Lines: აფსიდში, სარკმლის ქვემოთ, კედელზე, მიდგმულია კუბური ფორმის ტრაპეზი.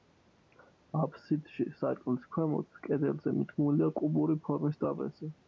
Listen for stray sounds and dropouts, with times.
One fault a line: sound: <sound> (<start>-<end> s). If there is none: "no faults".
no faults